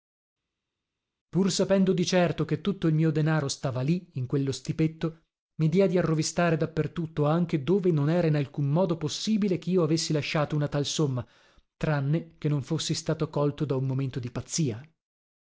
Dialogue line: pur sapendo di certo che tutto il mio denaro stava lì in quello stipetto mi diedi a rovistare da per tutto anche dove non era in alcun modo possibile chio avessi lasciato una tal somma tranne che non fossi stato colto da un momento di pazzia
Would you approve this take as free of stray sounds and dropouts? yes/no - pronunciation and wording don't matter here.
yes